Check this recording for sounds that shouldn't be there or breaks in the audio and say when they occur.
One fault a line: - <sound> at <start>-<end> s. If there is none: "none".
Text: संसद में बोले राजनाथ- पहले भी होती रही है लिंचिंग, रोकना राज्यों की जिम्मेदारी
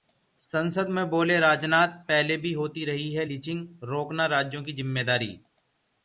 none